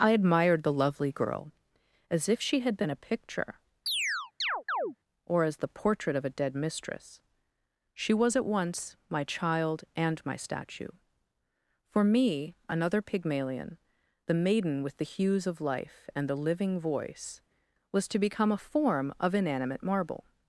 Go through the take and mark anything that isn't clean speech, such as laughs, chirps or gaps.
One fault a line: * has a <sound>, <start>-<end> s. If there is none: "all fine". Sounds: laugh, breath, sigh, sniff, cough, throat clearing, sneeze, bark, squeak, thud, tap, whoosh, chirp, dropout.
* has a chirp, 3.9-5.0 s